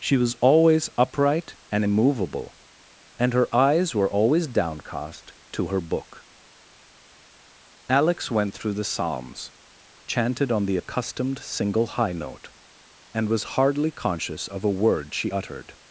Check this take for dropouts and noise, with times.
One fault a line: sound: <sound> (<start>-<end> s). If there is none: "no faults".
no faults